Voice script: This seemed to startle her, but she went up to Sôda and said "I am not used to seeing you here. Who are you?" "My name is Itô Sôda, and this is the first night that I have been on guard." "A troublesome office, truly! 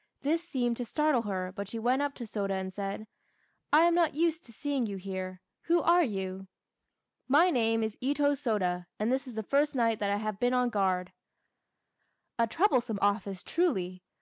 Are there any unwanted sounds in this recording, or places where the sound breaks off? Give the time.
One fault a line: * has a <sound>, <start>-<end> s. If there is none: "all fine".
all fine